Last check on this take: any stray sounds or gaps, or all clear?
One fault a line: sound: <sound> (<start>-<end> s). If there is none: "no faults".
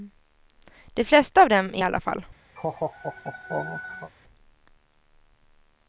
sound: laugh (2.6-4.1 s)